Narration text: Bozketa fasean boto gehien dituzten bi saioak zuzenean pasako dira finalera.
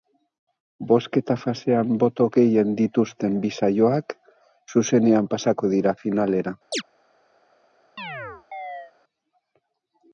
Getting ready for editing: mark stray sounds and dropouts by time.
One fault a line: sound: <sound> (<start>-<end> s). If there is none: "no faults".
sound: chirp (6.7-6.8 s)
sound: chirp (8.0-8.9 s)